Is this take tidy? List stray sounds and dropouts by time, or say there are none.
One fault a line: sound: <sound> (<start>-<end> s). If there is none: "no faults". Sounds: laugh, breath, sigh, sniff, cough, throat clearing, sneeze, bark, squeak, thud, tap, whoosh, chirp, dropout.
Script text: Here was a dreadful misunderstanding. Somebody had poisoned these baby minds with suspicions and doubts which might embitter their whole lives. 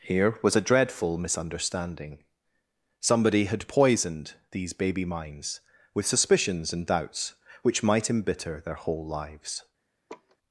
sound: laugh (10.1-10.4 s)